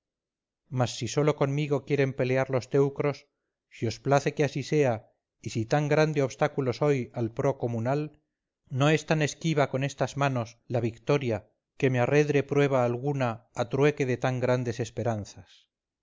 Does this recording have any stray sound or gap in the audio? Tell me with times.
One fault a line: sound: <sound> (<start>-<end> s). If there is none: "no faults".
no faults